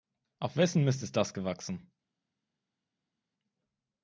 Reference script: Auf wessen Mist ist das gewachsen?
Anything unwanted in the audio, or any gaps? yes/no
no